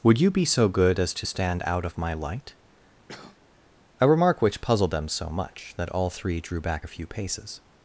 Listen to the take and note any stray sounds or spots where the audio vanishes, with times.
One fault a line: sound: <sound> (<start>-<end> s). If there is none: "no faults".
sound: cough (3.1-3.4 s)